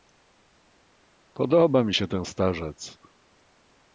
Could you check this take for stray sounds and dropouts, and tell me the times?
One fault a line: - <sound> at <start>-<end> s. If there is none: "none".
none